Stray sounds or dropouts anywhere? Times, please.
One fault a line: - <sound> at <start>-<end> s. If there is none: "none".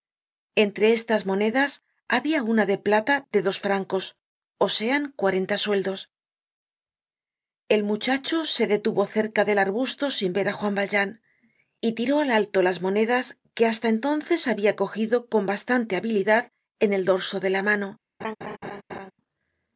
- laugh at 18.2-19.1 s